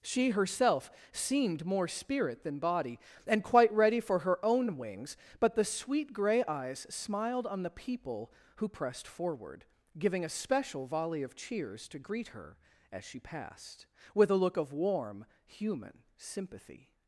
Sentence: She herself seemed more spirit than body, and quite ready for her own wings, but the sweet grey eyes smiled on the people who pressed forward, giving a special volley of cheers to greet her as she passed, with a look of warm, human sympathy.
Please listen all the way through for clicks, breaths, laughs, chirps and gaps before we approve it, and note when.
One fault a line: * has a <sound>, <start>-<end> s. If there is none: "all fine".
all fine